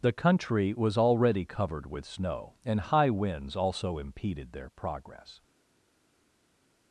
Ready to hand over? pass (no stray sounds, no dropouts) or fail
pass